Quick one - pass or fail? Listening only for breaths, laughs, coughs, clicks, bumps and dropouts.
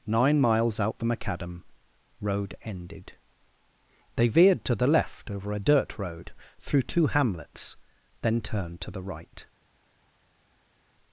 pass